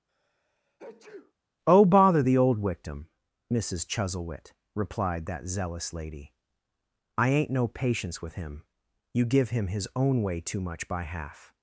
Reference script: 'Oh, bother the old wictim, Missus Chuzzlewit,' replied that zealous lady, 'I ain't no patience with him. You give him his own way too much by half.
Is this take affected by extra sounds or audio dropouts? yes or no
yes